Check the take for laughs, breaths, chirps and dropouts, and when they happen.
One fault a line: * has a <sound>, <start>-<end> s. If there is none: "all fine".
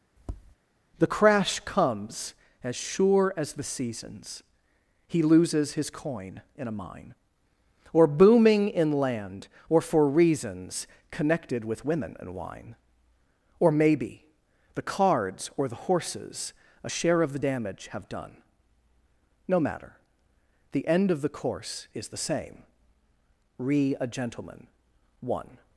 * has a tap, 0.2-0.6 s